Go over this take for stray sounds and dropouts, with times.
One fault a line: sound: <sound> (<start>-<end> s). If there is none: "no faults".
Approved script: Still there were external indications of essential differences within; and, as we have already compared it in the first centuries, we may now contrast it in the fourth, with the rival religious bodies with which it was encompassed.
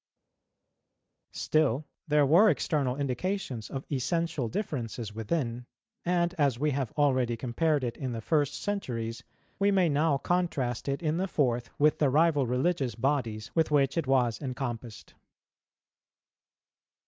no faults